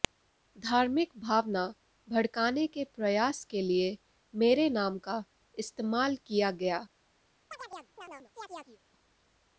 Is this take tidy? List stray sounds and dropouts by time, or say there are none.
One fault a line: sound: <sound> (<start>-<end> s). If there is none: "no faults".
sound: chirp (7.5-8.8 s)